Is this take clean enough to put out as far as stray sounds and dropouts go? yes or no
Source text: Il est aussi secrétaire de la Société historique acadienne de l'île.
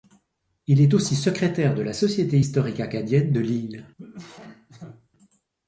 no